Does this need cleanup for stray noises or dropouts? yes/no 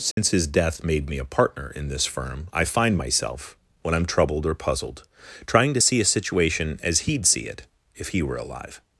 yes